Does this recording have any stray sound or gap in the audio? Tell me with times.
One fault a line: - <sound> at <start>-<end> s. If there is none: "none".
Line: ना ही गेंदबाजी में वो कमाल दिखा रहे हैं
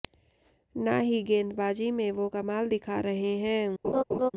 - laugh at 3.8-4.3 s